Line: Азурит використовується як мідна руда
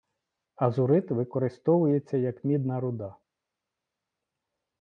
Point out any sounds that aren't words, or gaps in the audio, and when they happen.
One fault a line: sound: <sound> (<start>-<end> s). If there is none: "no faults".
no faults